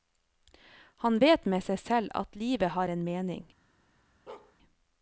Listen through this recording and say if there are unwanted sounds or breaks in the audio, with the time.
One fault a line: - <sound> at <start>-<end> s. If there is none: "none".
- bark at 4.3-4.6 s